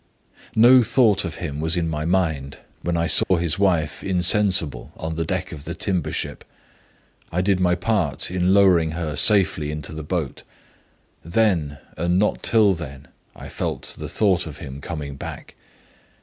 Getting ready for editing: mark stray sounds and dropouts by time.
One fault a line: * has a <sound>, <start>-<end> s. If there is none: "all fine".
* has a dropout, 3.2-3.3 s